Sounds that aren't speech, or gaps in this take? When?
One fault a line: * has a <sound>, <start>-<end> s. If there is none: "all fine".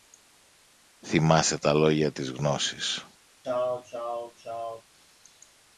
* has a sneeze, 3.4-4.8 s